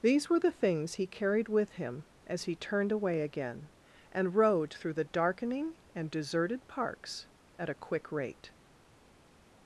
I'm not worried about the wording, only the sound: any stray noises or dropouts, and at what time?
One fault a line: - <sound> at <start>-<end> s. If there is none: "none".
none